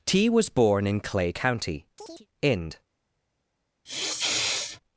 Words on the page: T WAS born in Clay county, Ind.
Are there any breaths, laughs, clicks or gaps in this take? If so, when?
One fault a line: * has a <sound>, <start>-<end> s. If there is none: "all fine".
* has a chirp, 2.0-2.3 s
* has a sniff, 3.9-4.8 s